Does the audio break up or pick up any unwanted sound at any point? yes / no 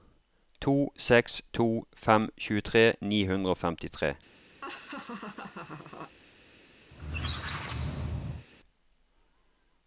yes